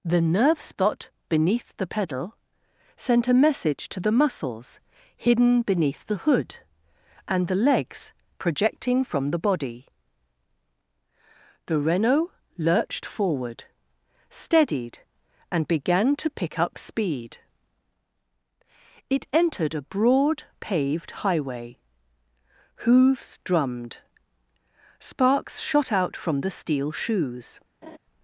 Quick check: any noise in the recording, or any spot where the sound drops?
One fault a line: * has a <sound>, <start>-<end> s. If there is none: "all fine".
* has a laugh, 27.8-28.0 s